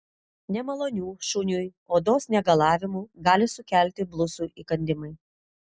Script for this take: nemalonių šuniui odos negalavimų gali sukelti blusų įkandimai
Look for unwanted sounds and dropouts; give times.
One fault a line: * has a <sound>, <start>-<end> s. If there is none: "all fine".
all fine